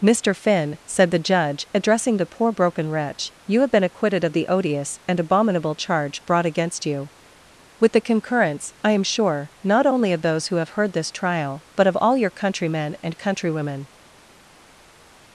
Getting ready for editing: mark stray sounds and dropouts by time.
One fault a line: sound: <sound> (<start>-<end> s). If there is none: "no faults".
no faults